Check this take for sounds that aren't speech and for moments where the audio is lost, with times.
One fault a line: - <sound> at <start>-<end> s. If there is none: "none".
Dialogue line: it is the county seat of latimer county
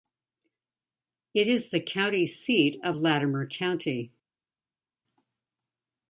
none